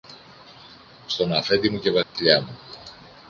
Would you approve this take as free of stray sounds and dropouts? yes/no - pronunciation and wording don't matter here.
no